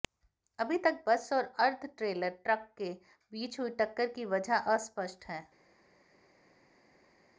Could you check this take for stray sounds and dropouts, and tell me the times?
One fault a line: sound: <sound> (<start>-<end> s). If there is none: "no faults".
no faults